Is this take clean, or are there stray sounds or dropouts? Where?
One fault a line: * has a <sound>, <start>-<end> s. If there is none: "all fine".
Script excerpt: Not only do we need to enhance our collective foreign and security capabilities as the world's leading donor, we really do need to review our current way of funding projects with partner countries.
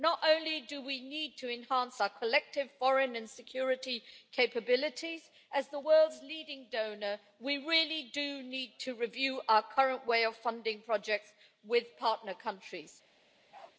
* has a bark, 13.5-13.8 s